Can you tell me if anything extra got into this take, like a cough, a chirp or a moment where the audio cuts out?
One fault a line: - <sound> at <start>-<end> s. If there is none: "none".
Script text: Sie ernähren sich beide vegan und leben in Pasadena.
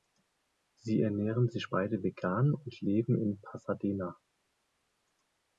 none